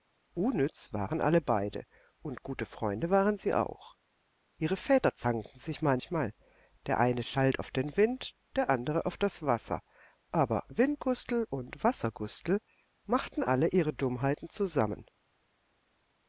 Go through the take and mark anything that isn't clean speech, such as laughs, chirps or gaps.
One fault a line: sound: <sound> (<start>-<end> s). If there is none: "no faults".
no faults